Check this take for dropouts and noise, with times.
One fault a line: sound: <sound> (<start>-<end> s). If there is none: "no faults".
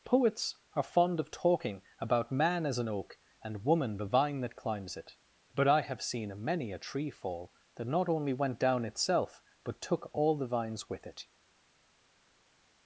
no faults